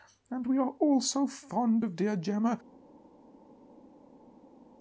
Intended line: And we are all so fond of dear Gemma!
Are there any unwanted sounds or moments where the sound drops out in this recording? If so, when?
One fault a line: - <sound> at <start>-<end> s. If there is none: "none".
none